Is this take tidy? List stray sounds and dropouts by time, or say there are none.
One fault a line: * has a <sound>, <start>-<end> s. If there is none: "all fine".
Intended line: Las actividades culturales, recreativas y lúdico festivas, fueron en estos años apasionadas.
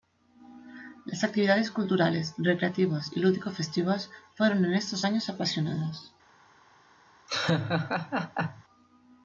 * has a laugh, 7.3-8.6 s